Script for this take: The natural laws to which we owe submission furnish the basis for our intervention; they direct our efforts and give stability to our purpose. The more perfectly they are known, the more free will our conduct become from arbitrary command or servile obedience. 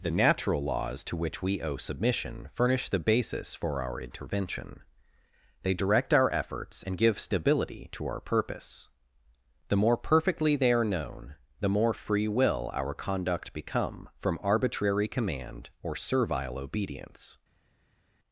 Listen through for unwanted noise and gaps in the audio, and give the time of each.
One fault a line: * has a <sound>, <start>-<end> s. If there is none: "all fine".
all fine